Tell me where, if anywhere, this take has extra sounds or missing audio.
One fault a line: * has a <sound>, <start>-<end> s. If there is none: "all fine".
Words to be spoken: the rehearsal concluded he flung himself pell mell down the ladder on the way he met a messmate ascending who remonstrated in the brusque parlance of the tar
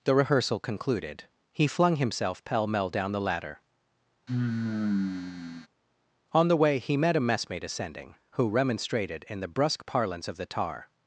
* has a sigh, 4.3-5.7 s